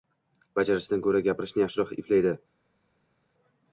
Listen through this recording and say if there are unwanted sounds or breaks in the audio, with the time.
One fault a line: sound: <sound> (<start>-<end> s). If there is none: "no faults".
no faults